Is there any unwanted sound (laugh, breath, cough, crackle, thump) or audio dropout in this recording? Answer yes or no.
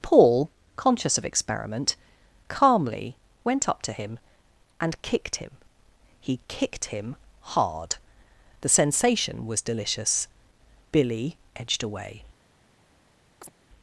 yes